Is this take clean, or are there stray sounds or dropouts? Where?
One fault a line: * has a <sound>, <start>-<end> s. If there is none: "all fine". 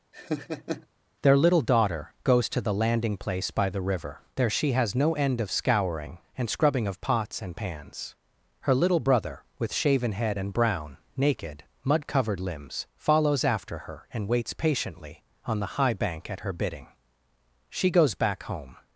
* has a laugh, 0.1-0.9 s